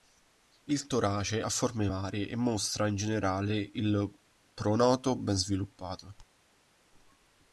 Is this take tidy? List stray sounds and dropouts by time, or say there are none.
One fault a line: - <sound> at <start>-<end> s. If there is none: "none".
none